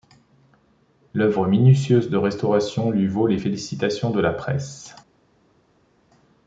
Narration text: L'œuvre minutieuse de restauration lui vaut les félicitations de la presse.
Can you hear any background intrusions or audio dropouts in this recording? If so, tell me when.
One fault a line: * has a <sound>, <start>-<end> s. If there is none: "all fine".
all fine